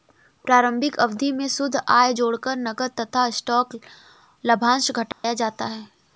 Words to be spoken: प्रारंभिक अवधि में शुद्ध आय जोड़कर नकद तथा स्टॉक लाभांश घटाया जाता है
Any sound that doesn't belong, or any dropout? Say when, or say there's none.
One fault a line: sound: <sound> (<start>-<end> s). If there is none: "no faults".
sound: dropout (5.1-5.2 s)